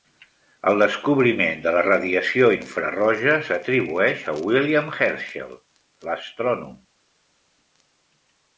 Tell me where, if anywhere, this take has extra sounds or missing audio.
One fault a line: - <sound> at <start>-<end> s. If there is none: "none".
none